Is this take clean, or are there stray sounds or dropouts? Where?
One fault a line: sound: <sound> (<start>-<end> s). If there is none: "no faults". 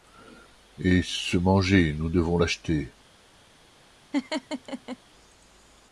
sound: laugh (4.1-5.0 s)